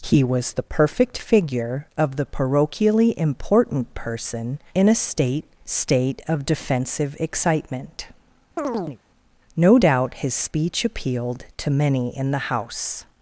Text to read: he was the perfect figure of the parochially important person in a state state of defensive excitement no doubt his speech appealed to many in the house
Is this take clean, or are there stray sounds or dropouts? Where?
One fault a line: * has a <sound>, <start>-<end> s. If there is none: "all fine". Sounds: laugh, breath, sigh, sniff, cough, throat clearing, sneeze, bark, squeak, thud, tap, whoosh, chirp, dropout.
* has a chirp, 8.6-9.0 s